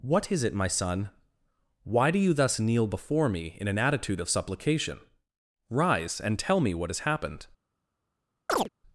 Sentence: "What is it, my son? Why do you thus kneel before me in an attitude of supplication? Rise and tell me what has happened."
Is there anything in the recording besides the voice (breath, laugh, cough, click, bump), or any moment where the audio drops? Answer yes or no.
yes